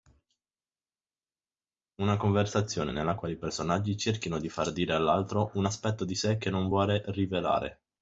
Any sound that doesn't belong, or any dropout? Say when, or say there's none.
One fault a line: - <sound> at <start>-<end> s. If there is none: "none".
none